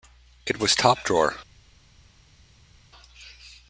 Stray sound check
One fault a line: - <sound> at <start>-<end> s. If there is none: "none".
none